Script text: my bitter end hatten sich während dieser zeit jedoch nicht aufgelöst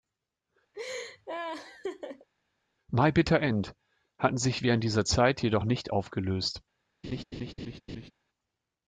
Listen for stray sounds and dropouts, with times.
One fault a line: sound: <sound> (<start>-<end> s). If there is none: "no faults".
sound: laugh (0.7-2.3 s)
sound: laugh (7.0-8.1 s)